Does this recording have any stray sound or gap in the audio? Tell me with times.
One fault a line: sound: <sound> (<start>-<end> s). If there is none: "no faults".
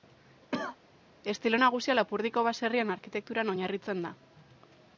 sound: cough (0.5-0.8 s)